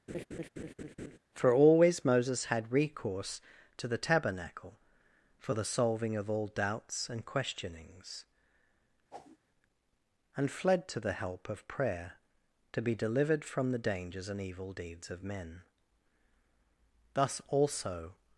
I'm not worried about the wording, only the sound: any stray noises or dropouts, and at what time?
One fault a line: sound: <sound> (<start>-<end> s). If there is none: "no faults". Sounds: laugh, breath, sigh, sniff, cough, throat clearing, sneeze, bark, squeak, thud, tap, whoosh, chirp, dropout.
sound: laugh (0.1-1.2 s)
sound: whoosh (9.1-9.4 s)